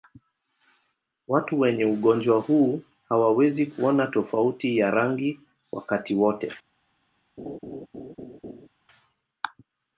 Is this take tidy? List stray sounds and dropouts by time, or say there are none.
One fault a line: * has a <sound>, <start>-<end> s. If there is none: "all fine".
* has a laugh, 7.4-8.7 s